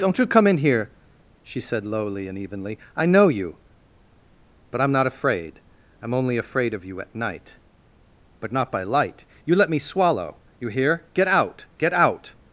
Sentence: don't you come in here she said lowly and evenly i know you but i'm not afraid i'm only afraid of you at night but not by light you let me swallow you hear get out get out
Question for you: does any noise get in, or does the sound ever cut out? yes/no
no